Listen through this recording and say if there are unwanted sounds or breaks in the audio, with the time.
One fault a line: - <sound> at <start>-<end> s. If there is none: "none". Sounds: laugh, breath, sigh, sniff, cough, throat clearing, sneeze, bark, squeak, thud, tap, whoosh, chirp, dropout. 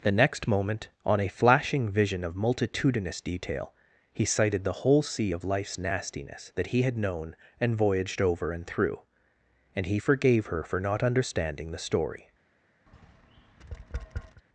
- tap at 12.9-14.4 s